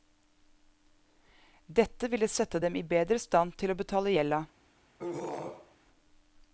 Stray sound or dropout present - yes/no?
yes